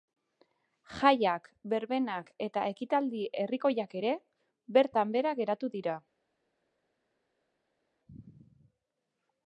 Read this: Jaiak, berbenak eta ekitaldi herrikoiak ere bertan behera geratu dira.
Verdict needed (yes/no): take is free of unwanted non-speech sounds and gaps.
yes